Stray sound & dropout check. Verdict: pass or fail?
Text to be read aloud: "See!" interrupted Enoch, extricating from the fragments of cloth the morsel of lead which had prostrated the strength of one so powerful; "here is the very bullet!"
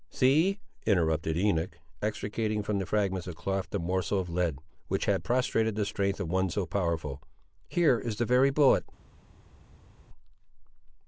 pass